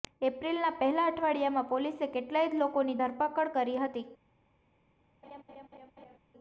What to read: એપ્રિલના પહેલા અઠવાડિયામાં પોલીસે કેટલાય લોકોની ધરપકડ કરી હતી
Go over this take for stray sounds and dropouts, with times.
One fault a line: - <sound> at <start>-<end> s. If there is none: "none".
- laugh at 5.2-6.2 s